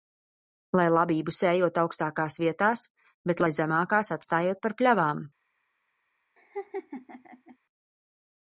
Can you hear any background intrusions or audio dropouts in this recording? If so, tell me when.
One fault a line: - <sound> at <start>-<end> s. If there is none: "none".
- laugh at 6.4-7.6 s